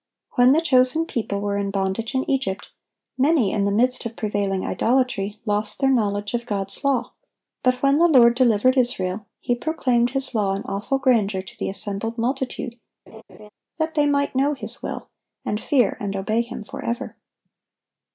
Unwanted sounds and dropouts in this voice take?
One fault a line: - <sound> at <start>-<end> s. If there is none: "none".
- laugh at 13.1-13.5 s